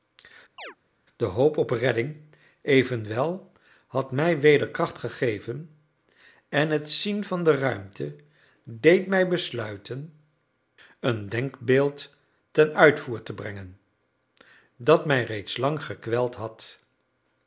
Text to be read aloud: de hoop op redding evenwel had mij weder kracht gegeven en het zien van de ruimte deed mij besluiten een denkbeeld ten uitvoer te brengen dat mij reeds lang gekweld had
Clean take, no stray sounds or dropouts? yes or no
no